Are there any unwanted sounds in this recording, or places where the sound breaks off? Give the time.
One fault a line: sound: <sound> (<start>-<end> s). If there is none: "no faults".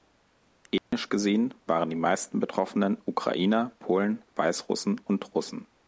sound: dropout (0.8-0.9 s)